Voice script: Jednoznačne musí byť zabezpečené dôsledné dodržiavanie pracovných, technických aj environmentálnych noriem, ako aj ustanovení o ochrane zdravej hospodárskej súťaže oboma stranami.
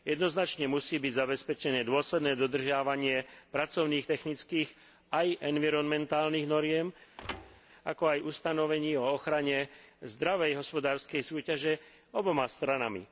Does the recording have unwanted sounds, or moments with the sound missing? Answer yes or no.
yes